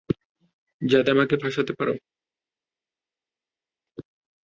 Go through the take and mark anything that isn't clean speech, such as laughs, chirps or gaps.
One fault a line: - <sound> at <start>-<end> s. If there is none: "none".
none